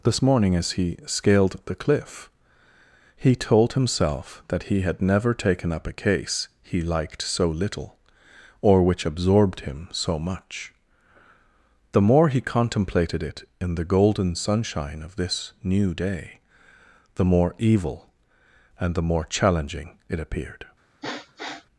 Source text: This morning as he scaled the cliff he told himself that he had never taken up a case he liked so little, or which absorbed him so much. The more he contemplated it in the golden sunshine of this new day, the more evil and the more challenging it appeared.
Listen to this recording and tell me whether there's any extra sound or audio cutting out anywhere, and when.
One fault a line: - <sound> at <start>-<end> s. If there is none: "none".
- sniff at 21.0-21.7 s